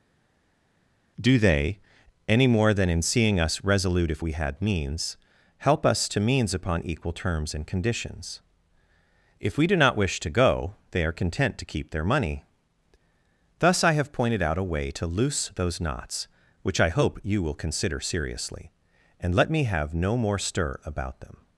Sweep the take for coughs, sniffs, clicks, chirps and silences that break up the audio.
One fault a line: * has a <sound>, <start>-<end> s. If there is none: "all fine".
all fine